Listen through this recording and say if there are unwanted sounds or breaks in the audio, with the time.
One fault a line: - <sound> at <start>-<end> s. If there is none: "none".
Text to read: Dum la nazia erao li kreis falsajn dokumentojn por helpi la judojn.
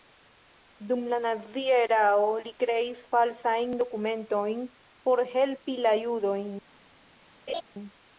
- laugh at 7.5-7.6 s